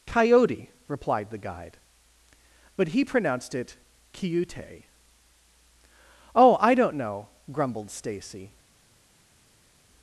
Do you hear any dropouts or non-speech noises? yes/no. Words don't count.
no